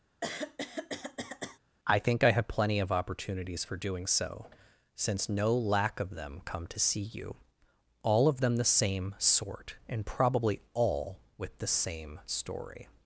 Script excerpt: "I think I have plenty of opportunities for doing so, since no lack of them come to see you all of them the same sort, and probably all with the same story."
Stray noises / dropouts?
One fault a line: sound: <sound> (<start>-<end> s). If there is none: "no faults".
sound: throat clearing (0.2-1.6 s)